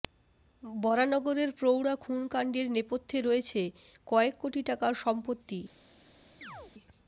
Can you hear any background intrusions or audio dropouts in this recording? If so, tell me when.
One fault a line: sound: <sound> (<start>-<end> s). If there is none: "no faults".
sound: chirp (6.4-6.7 s)